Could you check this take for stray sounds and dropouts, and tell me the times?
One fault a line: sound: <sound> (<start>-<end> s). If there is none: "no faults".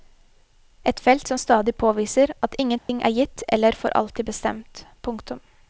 sound: dropout (2.8-2.9 s)